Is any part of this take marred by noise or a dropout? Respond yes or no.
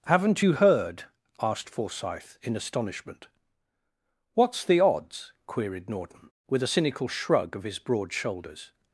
no